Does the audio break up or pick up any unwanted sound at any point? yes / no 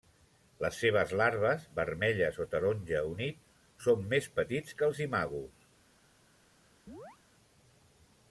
yes